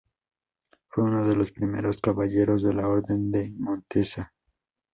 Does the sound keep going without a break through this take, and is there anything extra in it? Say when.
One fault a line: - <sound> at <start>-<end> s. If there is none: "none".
none